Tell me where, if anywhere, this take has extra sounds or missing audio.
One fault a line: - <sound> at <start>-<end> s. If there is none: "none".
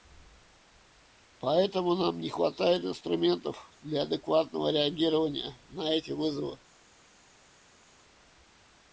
none